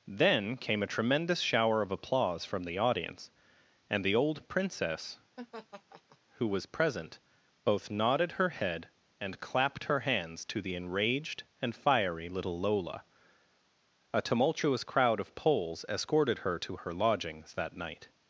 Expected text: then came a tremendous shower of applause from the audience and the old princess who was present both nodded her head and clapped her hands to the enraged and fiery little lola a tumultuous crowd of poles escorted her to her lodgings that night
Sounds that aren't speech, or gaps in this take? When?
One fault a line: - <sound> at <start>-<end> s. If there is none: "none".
- laugh at 5.4-6.2 s